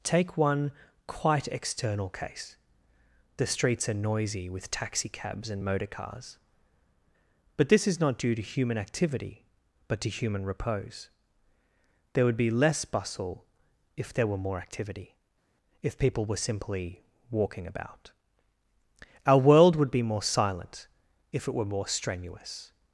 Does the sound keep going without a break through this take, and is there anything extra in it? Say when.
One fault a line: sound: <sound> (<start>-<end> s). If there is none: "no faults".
no faults